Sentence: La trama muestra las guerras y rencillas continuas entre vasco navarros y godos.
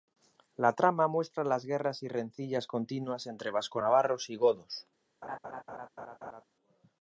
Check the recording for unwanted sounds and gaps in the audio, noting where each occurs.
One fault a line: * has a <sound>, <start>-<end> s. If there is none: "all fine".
* has a laugh, 5.2-6.4 s